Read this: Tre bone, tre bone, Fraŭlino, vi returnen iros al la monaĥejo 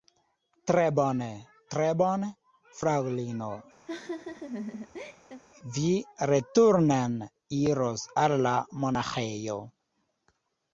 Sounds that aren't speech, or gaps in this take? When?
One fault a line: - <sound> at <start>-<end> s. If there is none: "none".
- laugh at 3.9-5.4 s